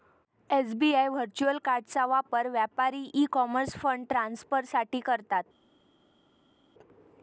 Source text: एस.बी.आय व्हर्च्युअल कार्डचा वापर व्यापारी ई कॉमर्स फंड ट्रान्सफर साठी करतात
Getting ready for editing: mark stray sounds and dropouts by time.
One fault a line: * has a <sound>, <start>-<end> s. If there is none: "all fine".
all fine